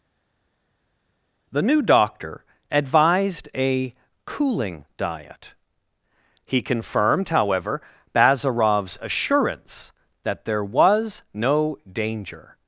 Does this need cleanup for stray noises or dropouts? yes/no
no